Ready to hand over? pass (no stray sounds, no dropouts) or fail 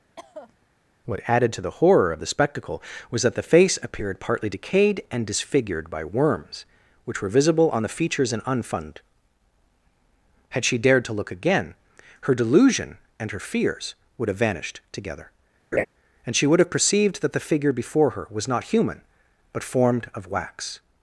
fail